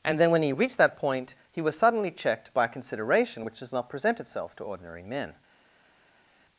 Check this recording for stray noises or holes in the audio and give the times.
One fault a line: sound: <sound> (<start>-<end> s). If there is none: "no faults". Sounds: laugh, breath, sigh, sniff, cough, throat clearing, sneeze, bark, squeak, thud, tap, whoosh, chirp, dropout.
no faults